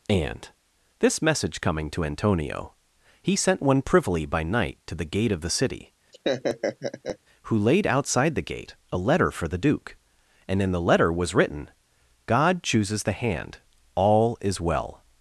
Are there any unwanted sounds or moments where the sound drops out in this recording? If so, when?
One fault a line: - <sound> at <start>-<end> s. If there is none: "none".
- laugh at 6.1-7.2 s